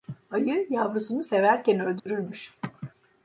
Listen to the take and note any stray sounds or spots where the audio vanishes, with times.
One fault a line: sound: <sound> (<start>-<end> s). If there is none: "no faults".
sound: dropout (2.0-2.1 s)